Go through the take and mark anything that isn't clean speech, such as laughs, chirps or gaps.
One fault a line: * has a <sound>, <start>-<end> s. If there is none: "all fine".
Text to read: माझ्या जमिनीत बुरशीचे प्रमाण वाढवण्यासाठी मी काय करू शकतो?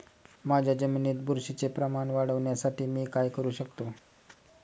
all fine